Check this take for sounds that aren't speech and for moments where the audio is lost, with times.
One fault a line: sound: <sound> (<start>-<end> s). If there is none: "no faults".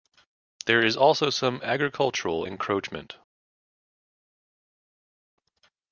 no faults